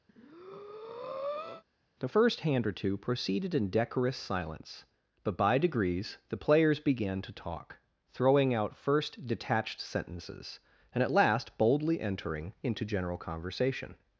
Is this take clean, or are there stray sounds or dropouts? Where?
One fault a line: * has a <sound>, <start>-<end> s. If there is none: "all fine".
* has a breath, 0.1-1.6 s